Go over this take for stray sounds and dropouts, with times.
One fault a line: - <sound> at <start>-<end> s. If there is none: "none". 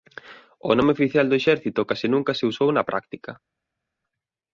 none